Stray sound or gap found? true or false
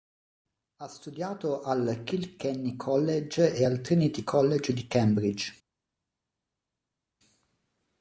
false